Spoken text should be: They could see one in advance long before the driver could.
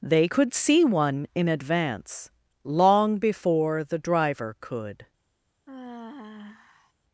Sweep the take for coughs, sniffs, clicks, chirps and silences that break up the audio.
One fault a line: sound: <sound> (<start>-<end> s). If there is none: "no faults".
sound: sigh (5.7-6.9 s)